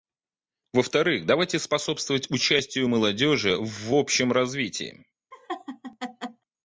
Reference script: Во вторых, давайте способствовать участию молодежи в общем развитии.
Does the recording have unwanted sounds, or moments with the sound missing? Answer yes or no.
yes